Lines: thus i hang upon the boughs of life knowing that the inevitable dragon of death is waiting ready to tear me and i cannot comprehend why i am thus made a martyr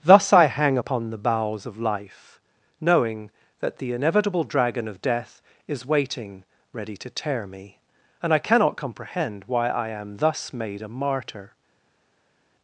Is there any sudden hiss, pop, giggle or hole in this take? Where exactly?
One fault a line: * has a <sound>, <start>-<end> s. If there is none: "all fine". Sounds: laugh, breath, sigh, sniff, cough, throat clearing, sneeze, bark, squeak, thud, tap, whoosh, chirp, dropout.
all fine